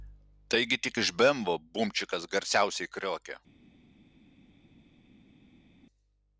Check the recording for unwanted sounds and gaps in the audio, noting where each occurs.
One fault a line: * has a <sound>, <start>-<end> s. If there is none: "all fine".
all fine